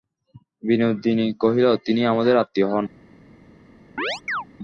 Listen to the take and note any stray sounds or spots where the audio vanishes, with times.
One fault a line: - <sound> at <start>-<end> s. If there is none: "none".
- chirp at 4.0-4.5 s